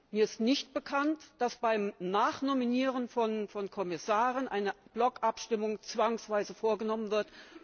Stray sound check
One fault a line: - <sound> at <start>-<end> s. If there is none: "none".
none